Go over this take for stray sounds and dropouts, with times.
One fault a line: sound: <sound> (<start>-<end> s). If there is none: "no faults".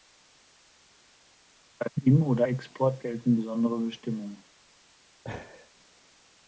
sound: laugh (5.2-5.7 s)